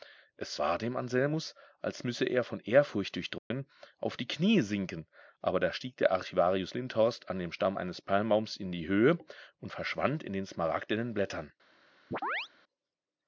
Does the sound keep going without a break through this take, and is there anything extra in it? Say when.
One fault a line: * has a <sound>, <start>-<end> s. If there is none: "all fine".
* has a dropout, 3.4-3.5 s
* has a chirp, 12.1-12.5 s